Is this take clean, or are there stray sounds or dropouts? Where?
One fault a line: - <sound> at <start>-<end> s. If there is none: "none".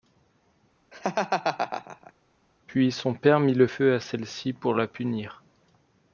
- laugh at 0.9-2.1 s